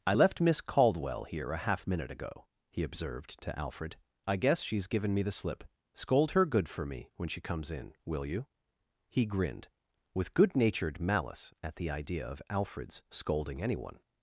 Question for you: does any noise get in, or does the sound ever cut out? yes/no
no